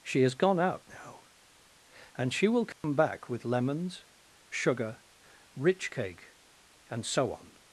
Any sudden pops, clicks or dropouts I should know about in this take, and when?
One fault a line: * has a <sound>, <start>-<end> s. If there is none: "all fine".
* has a dropout, 2.7-2.8 s